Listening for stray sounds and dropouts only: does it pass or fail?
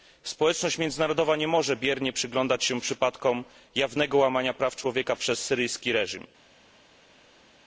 pass